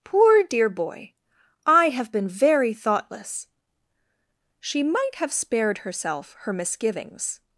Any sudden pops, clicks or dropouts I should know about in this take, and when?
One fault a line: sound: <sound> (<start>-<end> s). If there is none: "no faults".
no faults